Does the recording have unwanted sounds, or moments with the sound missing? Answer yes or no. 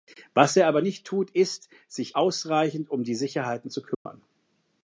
yes